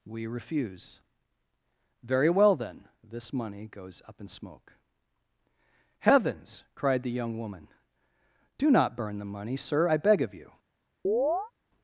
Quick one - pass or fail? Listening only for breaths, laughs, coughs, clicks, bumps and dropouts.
fail